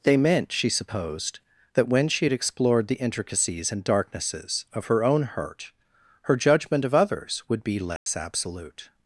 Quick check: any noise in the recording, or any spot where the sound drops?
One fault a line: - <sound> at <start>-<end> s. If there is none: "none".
- dropout at 8.0-8.1 s